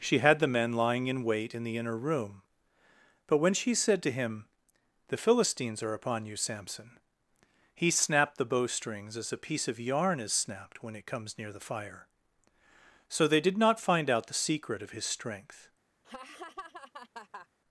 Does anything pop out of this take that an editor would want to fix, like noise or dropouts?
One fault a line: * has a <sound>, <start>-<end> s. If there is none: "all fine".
* has a laugh, 16.0-17.5 s